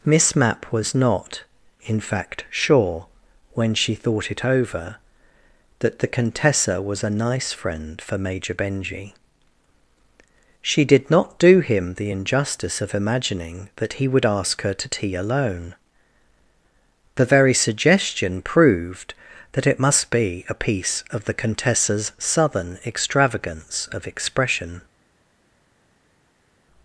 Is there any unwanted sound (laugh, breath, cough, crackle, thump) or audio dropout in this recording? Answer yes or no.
no